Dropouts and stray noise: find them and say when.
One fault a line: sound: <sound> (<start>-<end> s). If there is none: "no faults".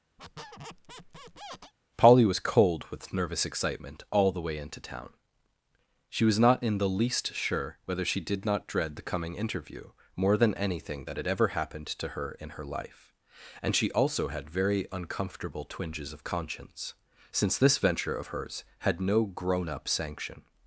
sound: squeak (0.2-1.7 s)